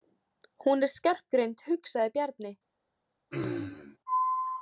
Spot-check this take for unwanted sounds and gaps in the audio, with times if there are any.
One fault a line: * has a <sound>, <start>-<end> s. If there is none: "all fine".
* has a throat clearing, 3.3-4.0 s